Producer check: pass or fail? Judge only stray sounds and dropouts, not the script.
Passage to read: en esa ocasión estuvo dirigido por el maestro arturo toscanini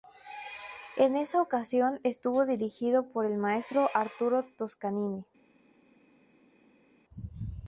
pass